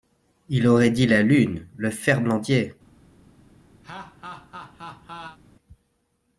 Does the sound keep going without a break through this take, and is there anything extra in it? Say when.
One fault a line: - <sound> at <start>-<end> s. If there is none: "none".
- laugh at 3.8-5.4 s